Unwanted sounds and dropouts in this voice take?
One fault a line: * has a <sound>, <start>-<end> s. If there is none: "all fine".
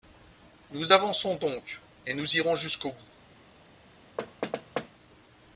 * has a thud, 4.2-4.9 s